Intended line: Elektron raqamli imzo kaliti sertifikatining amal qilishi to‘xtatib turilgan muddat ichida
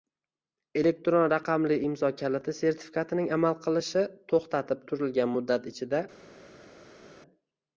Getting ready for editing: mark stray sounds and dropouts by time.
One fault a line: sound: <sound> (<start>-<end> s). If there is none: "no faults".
no faults